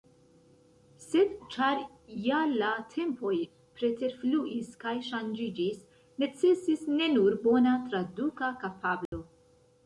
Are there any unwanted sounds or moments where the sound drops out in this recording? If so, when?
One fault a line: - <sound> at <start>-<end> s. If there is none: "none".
- dropout at 9.1-9.1 s